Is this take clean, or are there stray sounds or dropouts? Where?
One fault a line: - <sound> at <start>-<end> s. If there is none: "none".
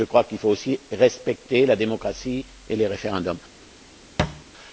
- thud at 4.2-4.4 s